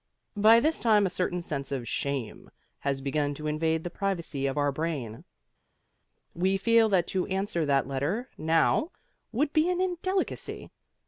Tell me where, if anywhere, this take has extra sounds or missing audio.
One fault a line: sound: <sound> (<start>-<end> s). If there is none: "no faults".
no faults